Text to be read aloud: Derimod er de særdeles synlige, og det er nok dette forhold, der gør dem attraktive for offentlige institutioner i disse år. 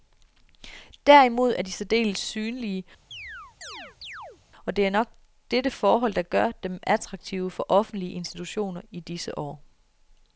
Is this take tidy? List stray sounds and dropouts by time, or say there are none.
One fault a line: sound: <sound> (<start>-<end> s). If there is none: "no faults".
sound: chirp (3.1-4.4 s)